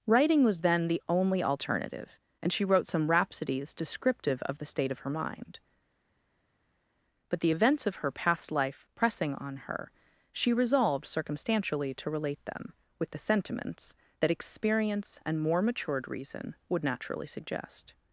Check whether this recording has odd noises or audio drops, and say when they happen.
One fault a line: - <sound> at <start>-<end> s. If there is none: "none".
none